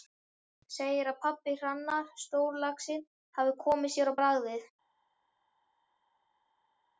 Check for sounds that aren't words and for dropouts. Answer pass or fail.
pass